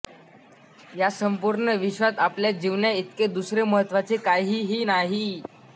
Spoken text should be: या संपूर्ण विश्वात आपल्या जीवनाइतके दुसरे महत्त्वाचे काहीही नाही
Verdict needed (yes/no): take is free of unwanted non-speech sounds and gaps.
yes